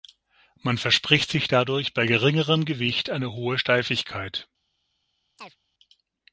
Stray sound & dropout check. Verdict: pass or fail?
fail